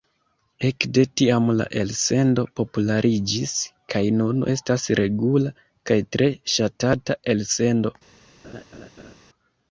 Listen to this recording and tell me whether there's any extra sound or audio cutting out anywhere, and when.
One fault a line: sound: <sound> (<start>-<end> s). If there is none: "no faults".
sound: laugh (8.4-9.2 s)